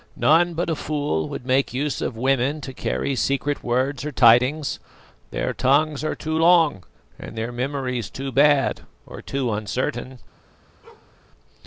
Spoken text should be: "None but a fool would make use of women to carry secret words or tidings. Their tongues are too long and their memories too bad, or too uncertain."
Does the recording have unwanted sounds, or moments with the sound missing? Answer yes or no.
yes